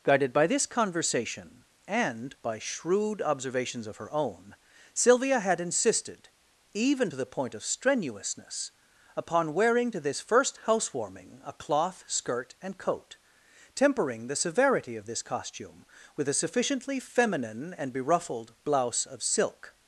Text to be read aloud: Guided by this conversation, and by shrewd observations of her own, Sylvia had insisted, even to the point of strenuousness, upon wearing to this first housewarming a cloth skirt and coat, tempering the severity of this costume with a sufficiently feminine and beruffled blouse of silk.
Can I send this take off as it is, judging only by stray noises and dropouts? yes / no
yes